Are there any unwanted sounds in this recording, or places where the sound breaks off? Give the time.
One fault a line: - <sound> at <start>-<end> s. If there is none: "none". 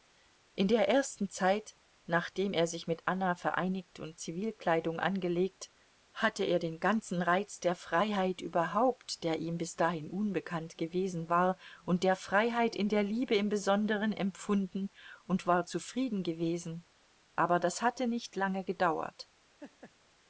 - laugh at 19.6-19.9 s